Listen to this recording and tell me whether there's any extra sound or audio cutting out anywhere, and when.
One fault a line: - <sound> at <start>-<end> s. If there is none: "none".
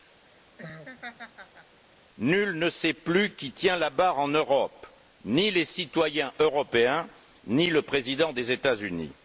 - laugh at 0.2-1.8 s